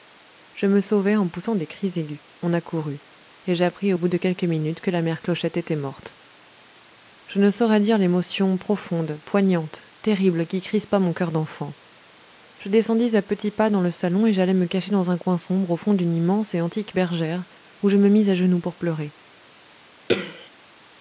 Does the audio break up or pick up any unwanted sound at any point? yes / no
yes